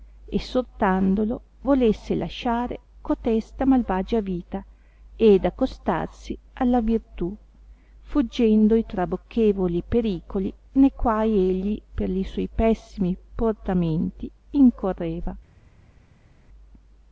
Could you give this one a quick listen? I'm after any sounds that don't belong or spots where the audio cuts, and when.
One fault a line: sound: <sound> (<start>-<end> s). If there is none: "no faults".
no faults